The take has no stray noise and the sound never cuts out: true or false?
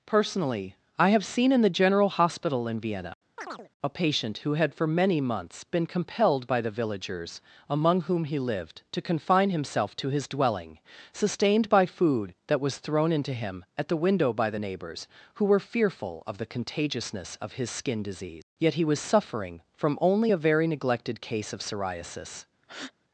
false